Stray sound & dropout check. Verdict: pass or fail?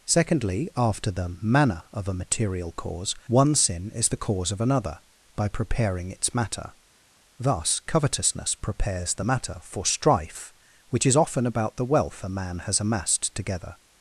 pass